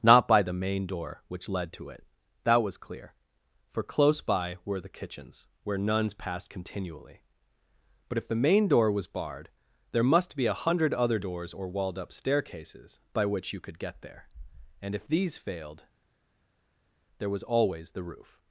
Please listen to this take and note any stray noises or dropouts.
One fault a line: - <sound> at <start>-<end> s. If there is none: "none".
none